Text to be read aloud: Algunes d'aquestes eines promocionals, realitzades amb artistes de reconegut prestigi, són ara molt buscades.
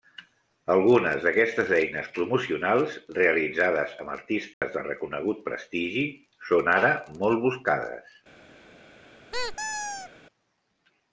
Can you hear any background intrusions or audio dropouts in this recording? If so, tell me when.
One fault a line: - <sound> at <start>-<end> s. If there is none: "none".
- dropout at 4.5-4.6 s
- squeak at 9.3-10.1 s